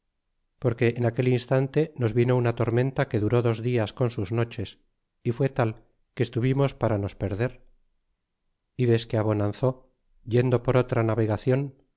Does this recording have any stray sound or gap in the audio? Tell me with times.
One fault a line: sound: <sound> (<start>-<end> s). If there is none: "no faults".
no faults